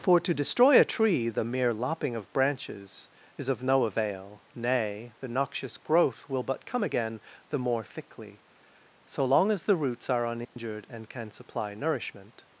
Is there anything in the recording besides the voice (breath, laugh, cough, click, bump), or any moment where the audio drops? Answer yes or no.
yes